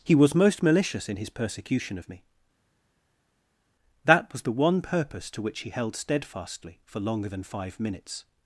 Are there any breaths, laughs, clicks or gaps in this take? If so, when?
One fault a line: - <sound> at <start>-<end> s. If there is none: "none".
none